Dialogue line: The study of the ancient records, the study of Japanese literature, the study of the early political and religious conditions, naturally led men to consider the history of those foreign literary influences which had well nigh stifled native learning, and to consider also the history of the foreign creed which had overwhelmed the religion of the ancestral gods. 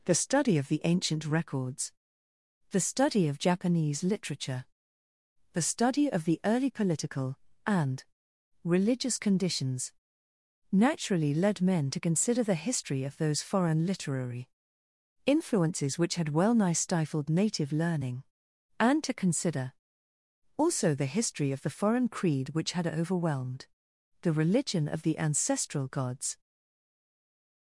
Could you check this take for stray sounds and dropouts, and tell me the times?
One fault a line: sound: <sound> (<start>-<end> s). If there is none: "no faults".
no faults